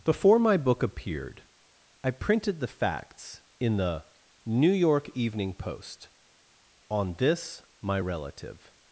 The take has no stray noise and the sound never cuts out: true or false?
true